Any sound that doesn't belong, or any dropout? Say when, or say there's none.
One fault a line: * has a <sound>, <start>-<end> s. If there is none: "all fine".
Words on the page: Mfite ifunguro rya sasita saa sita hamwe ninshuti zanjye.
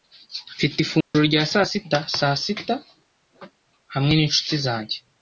* has a dropout, 1.0-1.1 s